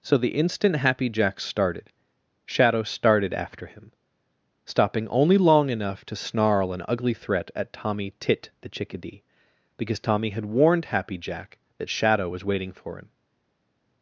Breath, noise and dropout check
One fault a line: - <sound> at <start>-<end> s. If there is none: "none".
none